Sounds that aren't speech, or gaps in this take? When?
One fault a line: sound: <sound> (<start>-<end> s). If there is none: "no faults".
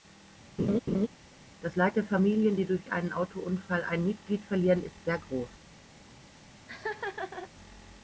sound: laugh (0.6-1.1 s)
sound: laugh (6.7-7.5 s)